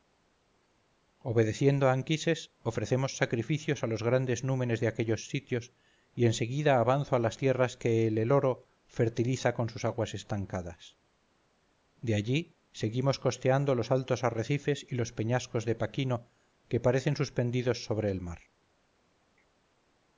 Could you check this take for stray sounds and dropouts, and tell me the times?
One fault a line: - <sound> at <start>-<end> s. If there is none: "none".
none